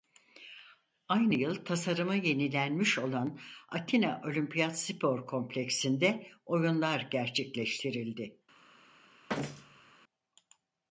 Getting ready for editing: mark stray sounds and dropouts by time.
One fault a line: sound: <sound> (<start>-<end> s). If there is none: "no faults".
sound: thud (9.3-9.9 s)